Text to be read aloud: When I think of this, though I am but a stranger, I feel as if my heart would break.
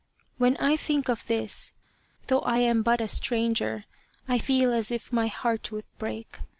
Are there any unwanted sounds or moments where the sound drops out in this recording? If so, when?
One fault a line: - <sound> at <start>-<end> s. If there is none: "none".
none